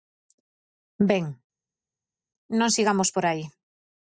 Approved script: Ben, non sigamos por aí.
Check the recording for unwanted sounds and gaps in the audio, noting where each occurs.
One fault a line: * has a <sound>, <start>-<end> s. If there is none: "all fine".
all fine